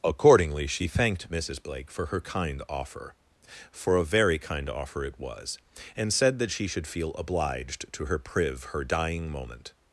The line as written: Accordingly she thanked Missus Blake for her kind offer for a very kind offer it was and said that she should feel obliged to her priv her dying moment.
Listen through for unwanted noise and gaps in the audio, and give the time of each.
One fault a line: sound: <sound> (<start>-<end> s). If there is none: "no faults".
no faults